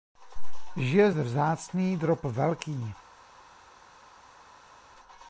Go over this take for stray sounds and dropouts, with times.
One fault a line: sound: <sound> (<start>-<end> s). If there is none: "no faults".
no faults